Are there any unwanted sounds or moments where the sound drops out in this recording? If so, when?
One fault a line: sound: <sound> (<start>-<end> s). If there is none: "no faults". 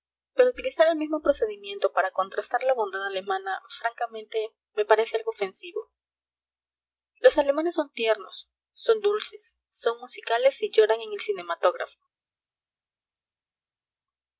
no faults